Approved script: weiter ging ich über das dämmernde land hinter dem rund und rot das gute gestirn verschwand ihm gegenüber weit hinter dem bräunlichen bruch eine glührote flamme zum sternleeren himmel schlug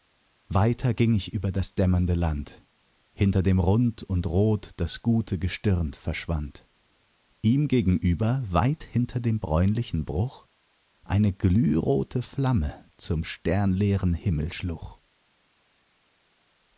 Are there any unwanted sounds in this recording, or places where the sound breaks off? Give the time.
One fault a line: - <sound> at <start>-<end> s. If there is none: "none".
none